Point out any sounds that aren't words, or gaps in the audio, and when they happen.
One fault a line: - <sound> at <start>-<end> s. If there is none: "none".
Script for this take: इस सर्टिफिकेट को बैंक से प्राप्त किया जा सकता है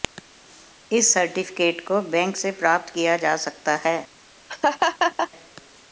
- laugh at 4.5-5.3 s